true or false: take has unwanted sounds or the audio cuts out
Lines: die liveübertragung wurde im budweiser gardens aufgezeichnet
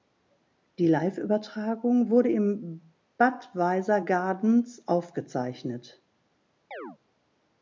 true